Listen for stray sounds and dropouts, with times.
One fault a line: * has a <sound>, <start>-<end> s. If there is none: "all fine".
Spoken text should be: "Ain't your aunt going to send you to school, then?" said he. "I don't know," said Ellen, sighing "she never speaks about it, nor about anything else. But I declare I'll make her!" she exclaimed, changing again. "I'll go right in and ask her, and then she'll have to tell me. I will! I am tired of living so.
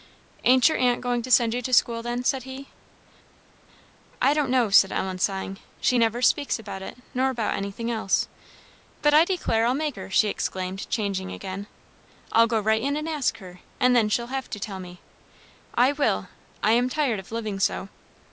all fine